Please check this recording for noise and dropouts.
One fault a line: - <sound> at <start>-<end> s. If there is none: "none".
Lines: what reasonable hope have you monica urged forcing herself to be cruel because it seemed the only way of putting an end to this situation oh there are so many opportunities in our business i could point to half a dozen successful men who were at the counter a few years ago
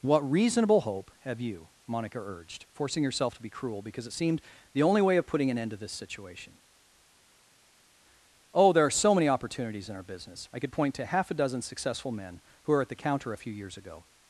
none